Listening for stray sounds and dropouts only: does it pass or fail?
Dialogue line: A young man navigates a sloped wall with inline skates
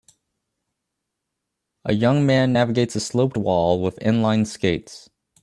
pass